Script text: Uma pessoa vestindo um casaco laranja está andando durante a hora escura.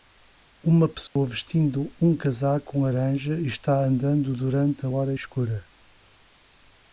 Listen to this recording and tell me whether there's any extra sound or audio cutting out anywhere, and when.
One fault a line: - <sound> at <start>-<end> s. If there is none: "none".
- dropout at 1.1-1.2 s